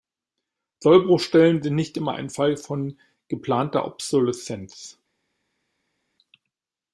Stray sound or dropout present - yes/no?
no